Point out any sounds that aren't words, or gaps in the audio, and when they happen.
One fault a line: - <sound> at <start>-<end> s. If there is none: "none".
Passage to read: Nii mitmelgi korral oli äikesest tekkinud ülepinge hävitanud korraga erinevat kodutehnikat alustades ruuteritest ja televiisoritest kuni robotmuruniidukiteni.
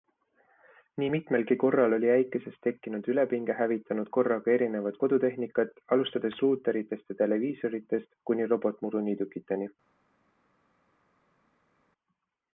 none